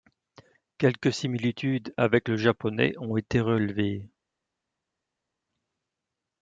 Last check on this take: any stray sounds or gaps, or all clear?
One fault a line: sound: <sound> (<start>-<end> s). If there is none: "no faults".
no faults